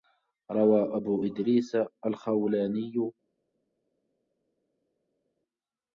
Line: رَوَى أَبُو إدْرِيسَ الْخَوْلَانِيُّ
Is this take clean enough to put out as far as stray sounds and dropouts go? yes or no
yes